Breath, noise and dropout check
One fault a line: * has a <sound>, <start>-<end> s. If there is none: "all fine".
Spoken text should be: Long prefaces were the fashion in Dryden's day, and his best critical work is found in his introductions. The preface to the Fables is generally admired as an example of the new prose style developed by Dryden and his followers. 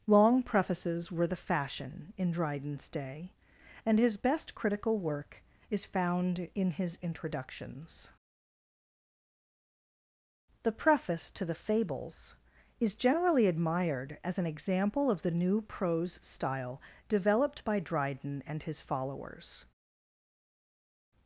all fine